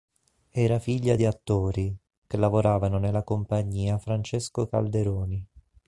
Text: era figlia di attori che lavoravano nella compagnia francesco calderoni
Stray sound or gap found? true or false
false